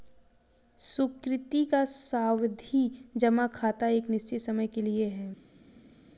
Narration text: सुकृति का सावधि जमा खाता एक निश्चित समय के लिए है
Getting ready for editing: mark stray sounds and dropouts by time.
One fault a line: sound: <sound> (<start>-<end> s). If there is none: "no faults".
no faults